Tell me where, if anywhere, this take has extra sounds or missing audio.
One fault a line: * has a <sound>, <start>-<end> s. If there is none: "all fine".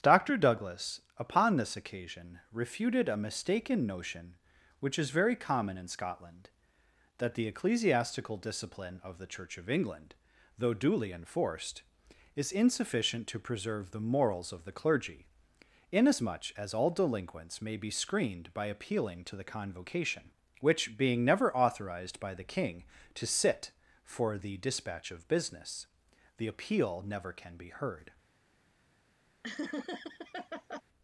* has a laugh, 29.4-30.8 s